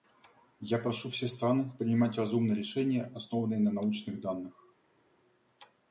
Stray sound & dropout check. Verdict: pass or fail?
pass